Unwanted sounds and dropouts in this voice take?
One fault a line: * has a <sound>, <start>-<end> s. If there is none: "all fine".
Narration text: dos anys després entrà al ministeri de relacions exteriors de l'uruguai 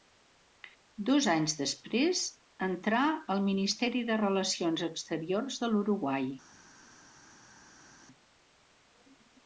all fine